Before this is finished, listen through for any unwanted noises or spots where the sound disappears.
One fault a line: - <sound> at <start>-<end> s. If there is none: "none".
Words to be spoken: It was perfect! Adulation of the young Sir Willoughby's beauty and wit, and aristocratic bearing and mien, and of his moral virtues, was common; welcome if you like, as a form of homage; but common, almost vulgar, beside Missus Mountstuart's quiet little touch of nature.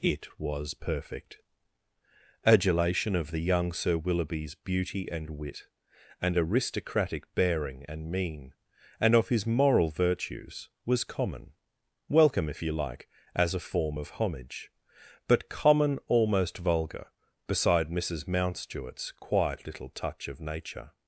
none